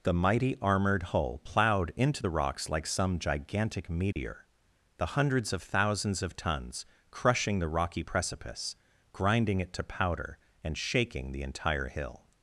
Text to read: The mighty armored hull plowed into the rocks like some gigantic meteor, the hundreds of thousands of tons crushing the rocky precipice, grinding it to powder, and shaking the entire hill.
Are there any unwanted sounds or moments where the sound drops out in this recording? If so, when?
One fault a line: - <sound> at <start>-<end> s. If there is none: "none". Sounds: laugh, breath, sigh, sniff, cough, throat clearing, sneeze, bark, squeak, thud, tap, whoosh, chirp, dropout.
- dropout at 4.1-4.2 s